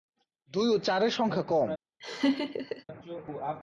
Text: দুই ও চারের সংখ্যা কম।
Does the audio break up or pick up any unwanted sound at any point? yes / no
yes